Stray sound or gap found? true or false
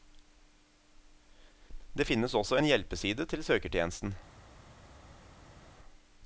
false